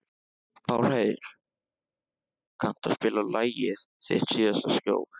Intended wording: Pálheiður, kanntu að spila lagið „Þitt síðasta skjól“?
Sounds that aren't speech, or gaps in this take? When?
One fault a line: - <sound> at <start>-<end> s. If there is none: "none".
none